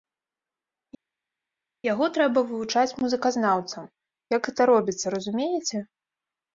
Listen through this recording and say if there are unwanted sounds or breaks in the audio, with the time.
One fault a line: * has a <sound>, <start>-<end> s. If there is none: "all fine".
all fine